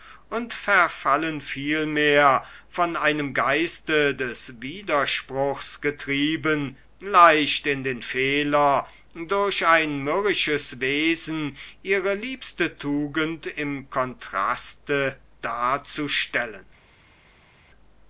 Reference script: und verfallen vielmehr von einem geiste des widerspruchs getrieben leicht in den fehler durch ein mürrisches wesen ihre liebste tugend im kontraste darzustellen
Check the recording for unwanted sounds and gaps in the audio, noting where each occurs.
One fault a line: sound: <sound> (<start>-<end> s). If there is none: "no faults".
no faults